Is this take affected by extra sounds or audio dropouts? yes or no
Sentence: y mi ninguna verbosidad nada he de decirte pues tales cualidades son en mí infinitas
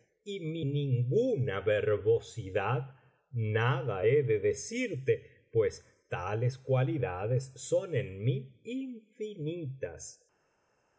no